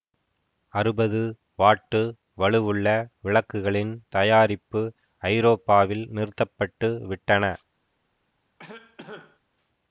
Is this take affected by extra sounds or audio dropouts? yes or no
yes